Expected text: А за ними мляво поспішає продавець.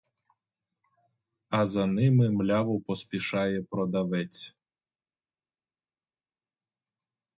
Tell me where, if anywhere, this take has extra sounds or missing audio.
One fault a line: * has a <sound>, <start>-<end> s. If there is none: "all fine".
all fine